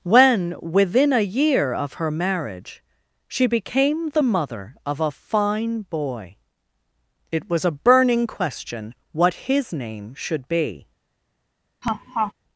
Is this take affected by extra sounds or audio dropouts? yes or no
yes